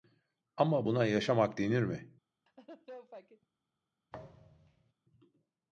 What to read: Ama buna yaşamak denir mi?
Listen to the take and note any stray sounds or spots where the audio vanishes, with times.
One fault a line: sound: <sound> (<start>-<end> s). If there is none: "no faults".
sound: laugh (2.5-3.5 s)
sound: thud (4.1-4.9 s)